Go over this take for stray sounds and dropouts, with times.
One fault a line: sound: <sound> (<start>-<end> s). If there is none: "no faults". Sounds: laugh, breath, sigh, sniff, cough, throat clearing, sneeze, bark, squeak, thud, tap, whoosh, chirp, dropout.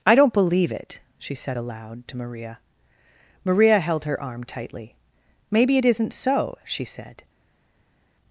no faults